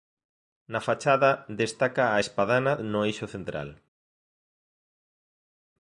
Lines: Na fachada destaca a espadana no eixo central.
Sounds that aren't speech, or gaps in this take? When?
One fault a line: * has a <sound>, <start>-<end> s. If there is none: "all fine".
all fine